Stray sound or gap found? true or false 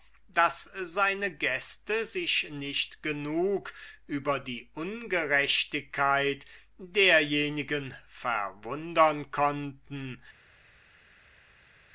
false